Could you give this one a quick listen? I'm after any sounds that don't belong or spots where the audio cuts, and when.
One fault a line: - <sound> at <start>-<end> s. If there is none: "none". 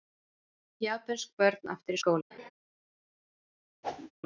- laugh at 2.3-2.5 s
- whoosh at 3.8-4.1 s